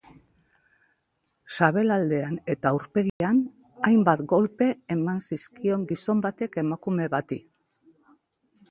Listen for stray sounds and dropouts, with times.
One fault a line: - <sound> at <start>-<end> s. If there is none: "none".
- dropout at 3.1-3.2 s